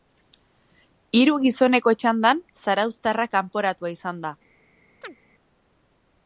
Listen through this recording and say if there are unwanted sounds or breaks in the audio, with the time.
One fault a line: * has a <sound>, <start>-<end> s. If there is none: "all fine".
* has a chirp, 5.0-5.2 s